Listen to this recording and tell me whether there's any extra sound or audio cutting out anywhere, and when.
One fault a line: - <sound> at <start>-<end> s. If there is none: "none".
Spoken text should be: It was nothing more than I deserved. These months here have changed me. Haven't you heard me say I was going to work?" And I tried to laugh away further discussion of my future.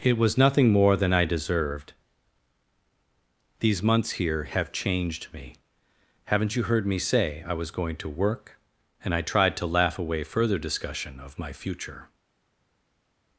none